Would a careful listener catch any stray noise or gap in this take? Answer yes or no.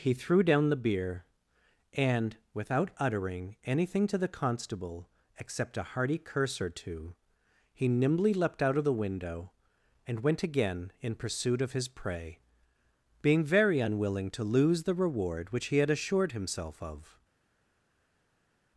no